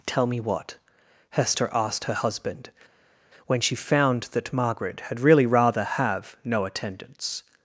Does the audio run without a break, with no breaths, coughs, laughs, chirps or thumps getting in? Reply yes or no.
yes